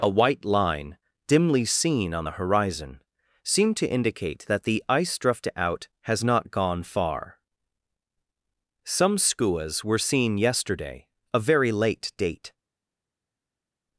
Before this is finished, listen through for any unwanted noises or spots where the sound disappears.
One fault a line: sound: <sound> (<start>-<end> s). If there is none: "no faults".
no faults